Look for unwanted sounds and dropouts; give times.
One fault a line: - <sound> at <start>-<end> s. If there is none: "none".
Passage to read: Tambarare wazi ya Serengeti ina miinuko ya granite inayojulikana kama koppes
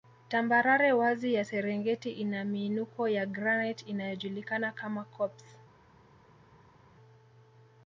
none